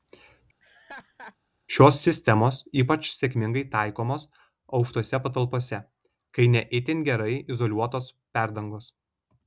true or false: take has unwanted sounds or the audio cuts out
true